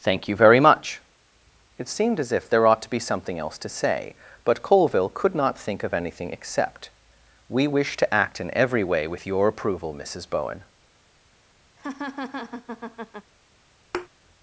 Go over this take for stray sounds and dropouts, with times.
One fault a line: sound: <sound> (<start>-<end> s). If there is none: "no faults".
sound: laugh (11.8-13.3 s)
sound: thud (13.9-14.1 s)